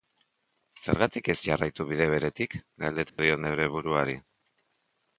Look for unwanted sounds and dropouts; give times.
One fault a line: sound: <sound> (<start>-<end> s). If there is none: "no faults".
sound: dropout (3.1-3.2 s)